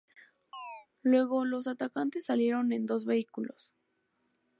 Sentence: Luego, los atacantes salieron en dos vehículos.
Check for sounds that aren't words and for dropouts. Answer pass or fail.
fail